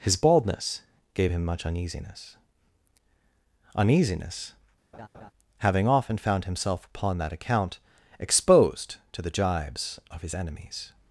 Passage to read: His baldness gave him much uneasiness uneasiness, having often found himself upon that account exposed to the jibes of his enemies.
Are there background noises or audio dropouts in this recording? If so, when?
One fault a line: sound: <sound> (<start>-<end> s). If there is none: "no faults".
sound: laugh (4.9-5.3 s)